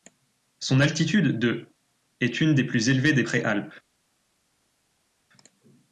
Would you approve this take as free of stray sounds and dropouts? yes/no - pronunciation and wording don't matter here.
yes